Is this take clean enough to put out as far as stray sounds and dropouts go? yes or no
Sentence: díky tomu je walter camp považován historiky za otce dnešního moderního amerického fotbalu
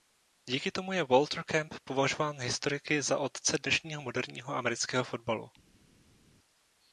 yes